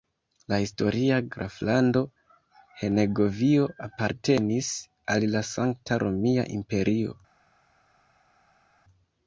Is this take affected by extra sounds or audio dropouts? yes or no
no